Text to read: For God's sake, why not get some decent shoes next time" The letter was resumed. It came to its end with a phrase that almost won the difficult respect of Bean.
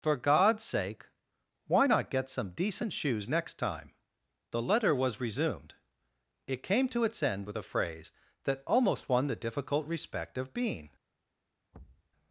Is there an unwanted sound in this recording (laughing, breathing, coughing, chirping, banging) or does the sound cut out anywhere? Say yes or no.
yes